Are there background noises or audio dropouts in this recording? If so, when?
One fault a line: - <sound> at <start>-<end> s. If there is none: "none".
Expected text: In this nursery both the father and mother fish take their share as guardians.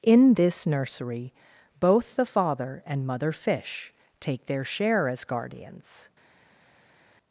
none